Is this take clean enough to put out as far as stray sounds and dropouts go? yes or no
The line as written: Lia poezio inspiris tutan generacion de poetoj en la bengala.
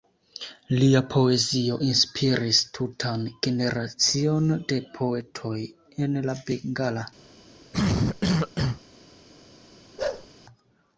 no